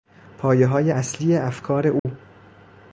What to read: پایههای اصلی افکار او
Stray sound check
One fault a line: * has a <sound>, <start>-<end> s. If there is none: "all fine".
* has a dropout, 2.0-2.0 s